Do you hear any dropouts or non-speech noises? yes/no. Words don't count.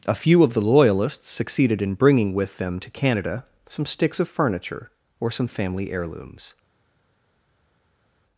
no